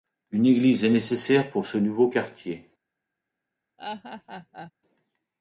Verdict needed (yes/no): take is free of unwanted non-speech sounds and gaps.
no